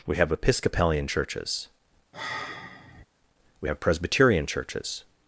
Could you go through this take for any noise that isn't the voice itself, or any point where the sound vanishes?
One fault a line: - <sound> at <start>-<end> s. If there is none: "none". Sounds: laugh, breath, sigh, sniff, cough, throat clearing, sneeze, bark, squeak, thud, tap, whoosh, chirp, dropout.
- sigh at 2.1-3.1 s